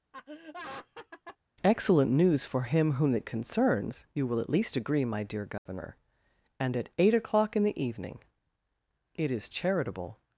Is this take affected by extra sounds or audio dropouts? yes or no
yes